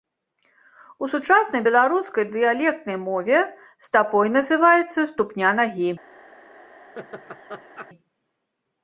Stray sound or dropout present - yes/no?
yes